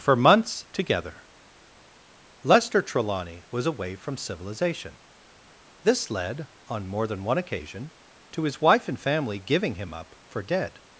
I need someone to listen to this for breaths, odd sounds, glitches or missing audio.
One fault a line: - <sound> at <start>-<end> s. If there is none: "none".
none